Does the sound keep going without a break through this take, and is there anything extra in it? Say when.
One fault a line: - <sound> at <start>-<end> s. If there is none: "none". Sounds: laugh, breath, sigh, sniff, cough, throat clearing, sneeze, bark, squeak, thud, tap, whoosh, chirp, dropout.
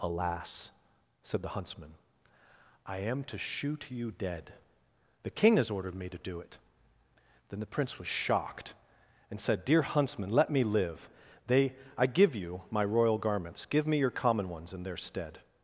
none